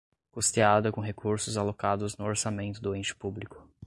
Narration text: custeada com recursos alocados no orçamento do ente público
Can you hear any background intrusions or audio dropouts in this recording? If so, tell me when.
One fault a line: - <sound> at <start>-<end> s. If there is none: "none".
none